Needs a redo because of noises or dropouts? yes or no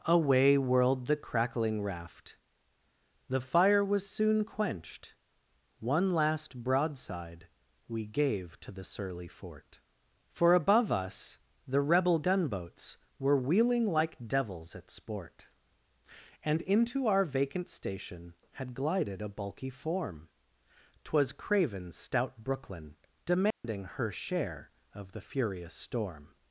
yes